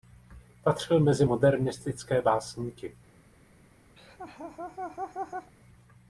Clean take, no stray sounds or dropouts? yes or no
no